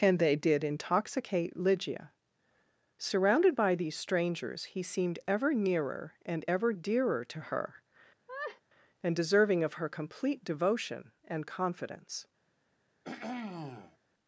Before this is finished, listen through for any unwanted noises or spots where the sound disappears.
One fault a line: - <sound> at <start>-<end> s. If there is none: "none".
- laugh at 8.3-8.6 s
- throat clearing at 13.0-14.0 s